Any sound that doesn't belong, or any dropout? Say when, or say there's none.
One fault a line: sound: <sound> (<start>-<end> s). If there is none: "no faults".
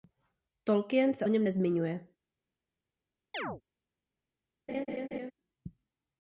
sound: chirp (3.3-3.6 s)
sound: laugh (4.7-5.3 s)